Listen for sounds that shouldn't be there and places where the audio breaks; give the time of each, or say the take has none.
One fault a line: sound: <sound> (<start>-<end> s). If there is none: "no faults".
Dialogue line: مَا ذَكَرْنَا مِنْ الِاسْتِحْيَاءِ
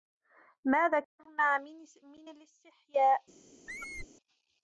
sound: squeak (3.7-4.1 s)